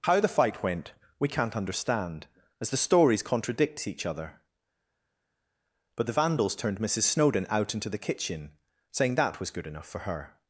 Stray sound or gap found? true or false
false